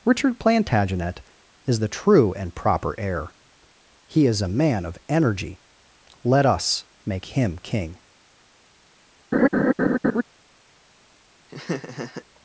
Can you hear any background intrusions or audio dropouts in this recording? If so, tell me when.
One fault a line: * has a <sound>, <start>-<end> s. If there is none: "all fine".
* has a laugh, 9.3-10.2 s
* has a laugh, 11.5-12.3 s